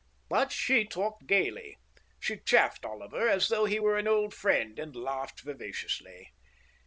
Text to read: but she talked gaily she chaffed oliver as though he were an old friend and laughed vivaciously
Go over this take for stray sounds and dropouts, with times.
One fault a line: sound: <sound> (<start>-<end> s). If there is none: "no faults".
no faults